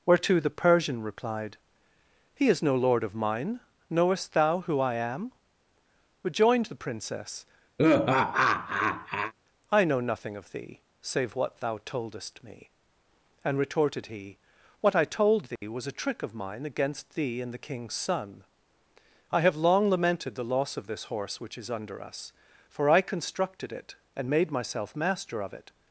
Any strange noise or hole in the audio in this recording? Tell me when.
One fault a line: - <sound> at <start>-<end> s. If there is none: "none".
- laugh at 7.8-9.3 s
- dropout at 15.6-15.6 s